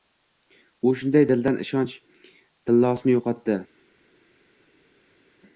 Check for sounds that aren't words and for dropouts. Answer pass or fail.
pass